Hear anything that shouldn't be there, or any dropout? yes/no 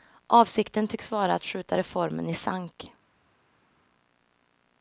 no